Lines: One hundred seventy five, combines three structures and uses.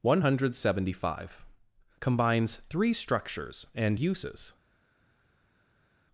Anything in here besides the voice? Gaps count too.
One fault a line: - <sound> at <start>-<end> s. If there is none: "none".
none